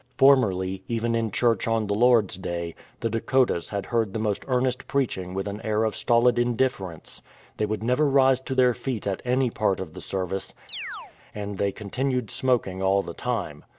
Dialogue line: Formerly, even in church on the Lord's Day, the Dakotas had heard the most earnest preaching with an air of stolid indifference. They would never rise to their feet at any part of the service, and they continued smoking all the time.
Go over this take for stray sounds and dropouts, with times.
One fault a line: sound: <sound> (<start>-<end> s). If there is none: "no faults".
sound: chirp (10.7-11.2 s)